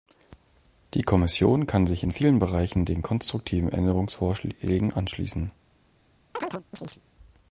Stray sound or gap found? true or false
true